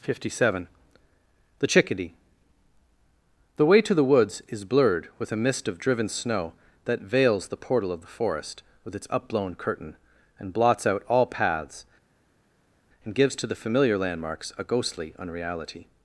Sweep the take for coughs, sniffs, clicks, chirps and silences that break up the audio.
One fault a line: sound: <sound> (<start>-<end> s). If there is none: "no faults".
no faults